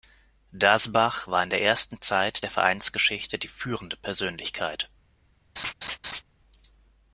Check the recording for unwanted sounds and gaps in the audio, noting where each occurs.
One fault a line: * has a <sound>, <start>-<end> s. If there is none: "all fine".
* has a laugh, 5.6-6.2 s